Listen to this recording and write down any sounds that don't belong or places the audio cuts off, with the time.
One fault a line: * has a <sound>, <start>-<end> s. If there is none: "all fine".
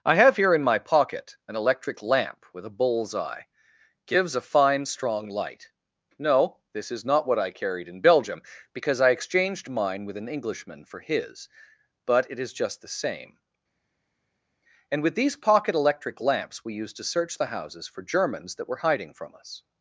all fine